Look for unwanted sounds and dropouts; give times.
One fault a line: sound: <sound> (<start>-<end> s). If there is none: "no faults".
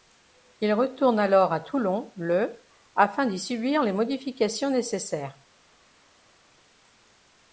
no faults